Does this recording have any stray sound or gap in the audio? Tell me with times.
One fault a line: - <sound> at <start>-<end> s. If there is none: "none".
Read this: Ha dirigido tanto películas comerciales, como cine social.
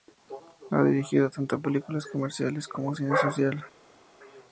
none